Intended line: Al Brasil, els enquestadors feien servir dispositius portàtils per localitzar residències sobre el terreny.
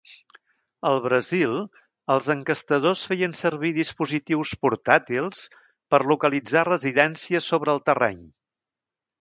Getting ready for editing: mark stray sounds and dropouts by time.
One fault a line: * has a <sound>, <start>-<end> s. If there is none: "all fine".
all fine